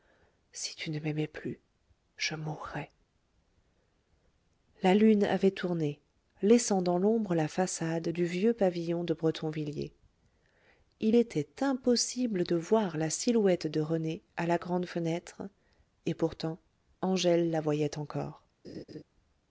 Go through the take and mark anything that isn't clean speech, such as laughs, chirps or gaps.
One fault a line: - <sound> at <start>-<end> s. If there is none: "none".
- laugh at 18.6-19.0 s